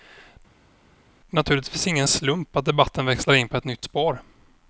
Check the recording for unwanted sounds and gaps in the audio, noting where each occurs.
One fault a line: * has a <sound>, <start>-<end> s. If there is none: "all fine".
all fine